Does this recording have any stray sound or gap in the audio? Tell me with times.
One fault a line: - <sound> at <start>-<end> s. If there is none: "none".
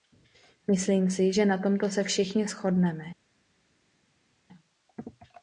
none